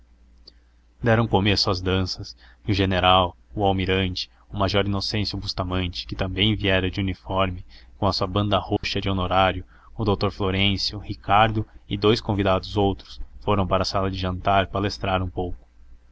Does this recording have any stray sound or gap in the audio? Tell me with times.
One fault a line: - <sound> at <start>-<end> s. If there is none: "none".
- dropout at 8.8-8.8 s